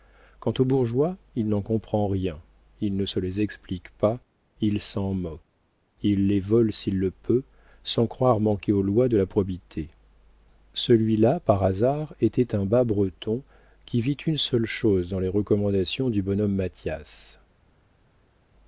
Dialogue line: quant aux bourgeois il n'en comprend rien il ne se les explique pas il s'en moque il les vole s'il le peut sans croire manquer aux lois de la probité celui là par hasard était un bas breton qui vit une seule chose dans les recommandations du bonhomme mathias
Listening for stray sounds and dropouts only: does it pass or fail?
pass